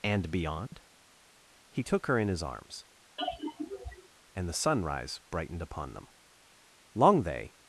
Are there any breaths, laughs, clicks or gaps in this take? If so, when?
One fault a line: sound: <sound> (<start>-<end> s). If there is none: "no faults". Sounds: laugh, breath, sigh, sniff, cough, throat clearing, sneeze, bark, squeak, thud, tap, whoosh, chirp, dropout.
sound: dropout (0.7-0.7 s)
sound: sigh (3.2-4.1 s)